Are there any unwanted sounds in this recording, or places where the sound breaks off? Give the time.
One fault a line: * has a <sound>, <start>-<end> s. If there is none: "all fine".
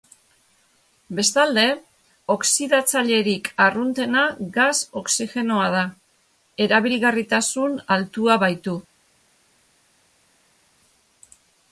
all fine